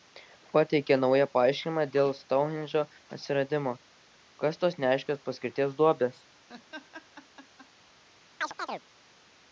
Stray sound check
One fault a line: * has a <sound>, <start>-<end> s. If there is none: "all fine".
* has a laugh, 6.5-7.7 s
* has a chirp, 8.4-8.8 s